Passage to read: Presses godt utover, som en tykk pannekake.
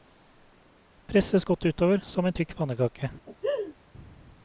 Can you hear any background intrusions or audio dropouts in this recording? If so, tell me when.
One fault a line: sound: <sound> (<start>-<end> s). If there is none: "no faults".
sound: laugh (3.3-3.7 s)